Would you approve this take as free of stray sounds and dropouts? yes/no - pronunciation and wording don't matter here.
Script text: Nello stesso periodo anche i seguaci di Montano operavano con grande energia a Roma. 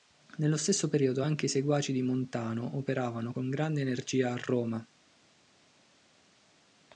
yes